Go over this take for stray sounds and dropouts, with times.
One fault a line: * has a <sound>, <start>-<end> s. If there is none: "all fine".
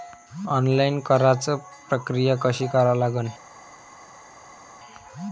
all fine